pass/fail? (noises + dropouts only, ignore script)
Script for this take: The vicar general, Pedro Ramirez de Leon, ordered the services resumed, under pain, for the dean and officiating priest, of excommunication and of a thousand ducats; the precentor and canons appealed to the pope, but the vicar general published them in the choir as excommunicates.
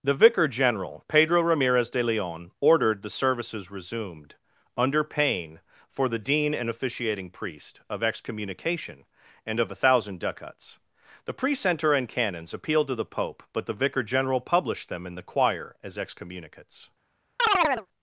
fail